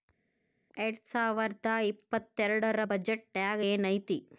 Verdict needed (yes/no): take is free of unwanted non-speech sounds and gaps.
yes